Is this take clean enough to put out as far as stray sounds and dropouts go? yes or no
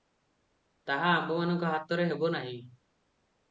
yes